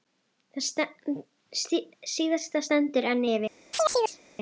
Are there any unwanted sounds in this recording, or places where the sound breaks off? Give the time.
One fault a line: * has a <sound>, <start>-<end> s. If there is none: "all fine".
* has a chirp, 3.7-4.2 s